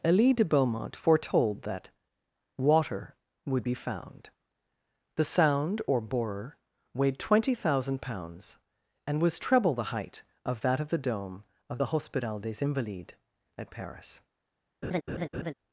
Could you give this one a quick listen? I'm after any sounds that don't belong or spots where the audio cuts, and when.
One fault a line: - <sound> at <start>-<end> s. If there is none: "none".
- laugh at 14.8-15.5 s